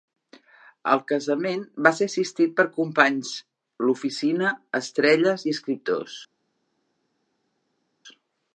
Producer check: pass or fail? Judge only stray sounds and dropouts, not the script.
pass